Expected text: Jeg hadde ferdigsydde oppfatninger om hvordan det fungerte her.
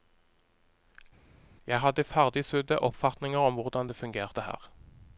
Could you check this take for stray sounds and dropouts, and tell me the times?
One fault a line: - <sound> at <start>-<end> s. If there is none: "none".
none